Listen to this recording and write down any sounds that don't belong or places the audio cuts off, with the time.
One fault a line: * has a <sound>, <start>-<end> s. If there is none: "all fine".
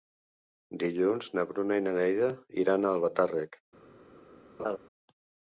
* has a laugh, 4.6-4.8 s